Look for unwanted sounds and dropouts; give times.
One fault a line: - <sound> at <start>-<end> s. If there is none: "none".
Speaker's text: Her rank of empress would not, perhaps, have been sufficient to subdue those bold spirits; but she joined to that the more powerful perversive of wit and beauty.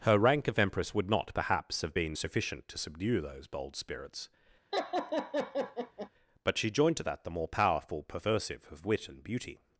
- laugh at 4.7-6.1 s